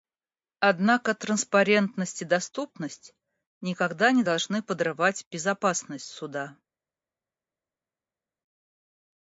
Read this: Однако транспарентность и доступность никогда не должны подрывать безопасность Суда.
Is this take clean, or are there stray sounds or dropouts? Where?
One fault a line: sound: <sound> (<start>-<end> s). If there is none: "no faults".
no faults